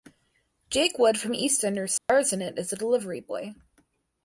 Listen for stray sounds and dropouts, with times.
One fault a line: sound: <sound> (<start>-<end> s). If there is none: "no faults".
sound: dropout (2.0-2.1 s)